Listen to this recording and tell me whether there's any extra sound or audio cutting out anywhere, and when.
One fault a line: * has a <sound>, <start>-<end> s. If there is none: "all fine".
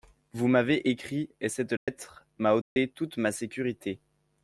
* has a dropout, 1.8-1.9 s
* has a dropout, 2.6-2.8 s